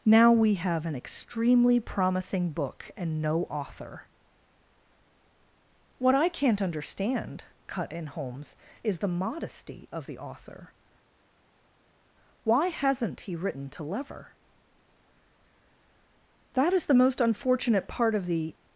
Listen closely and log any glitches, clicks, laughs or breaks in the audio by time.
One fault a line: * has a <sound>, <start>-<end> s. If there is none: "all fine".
all fine